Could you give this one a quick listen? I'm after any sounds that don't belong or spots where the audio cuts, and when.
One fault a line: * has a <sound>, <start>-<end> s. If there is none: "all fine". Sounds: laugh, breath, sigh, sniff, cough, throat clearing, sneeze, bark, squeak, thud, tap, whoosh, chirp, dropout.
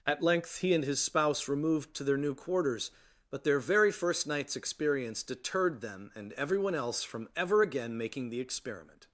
all fine